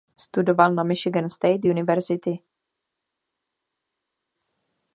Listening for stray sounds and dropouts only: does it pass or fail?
pass